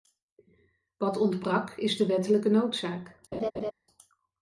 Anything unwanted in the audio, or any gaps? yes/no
yes